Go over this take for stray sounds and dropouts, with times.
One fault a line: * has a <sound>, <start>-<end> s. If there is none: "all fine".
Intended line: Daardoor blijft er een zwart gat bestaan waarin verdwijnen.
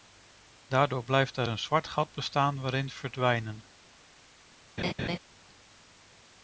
* has a laugh, 4.8-5.2 s